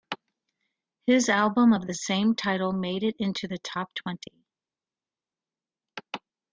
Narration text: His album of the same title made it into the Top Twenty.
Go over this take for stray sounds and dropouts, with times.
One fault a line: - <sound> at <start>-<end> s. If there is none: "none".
none